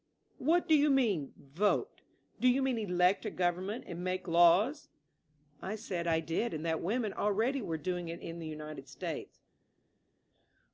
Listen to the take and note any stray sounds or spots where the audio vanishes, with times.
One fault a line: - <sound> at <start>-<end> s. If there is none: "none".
none